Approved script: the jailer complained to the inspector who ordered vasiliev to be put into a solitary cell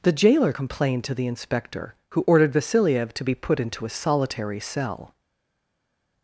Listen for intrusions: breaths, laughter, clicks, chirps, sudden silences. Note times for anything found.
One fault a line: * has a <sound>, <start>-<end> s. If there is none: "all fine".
all fine